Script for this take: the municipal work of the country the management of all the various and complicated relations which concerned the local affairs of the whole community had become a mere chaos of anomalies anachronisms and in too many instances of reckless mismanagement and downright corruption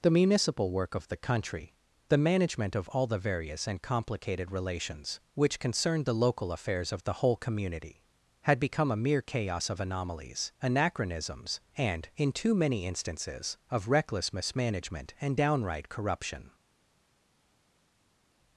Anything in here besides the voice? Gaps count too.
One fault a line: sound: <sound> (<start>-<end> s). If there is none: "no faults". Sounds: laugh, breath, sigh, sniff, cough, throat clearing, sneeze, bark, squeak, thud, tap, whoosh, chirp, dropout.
no faults